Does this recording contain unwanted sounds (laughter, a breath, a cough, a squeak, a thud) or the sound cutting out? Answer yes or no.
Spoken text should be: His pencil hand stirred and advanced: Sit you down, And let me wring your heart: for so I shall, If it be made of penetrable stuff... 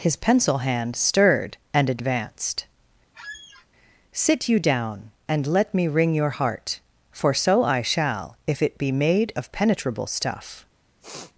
yes